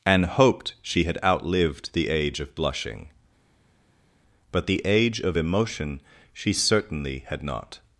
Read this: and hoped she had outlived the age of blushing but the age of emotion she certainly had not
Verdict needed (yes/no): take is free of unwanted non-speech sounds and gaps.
yes